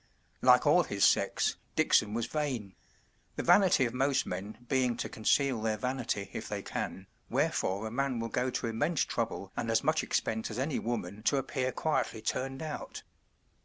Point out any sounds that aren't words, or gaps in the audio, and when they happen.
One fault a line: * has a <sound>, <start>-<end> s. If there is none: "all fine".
all fine